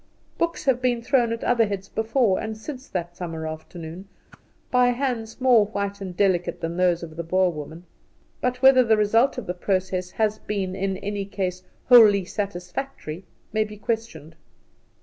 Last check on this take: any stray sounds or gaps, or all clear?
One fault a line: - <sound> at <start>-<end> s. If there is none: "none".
- whoosh at 4.3-4.4 s